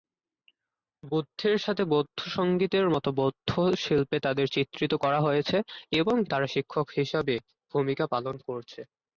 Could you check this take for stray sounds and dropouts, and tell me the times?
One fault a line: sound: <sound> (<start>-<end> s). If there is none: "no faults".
no faults